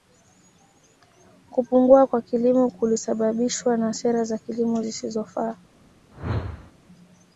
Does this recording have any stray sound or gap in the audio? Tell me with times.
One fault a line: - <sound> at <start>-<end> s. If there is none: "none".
- whoosh at 6.1-6.7 s